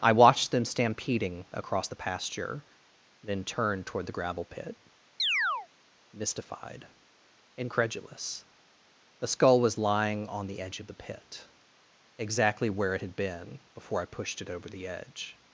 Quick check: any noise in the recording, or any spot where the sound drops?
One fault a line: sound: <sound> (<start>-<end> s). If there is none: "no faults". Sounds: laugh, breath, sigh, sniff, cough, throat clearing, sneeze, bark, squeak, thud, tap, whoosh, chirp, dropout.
sound: chirp (5.2-5.7 s)